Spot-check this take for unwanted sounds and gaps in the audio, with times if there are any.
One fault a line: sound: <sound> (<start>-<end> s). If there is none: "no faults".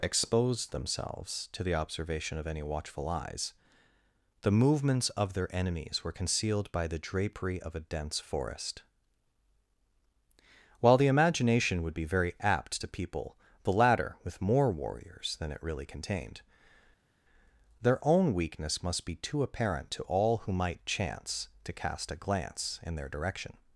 no faults